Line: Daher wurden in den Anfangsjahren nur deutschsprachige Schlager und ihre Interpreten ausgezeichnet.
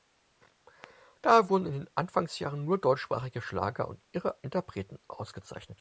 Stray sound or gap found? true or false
false